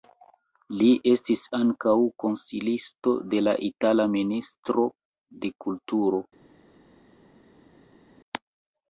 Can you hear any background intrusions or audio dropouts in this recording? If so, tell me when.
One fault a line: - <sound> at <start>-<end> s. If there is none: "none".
none